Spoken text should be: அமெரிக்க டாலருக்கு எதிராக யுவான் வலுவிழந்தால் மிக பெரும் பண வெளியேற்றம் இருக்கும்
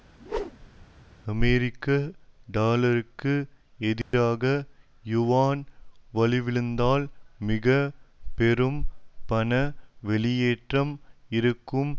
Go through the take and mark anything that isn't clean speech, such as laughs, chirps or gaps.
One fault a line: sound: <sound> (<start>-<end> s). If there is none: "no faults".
sound: whoosh (0.2-0.9 s)
sound: dropout (4.0-4.1 s)